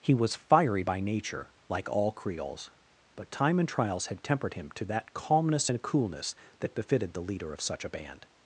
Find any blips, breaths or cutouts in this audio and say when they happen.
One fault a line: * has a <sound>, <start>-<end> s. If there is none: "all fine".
all fine